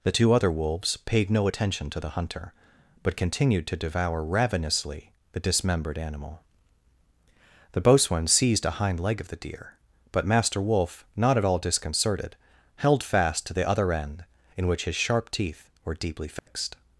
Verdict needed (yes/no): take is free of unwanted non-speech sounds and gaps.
no